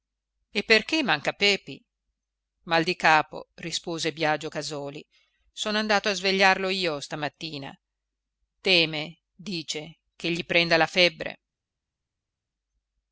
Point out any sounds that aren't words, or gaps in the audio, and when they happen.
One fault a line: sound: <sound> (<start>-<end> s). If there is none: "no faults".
no faults